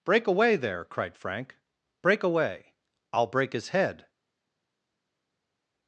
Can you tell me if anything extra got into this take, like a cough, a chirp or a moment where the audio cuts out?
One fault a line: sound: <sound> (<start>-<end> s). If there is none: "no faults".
no faults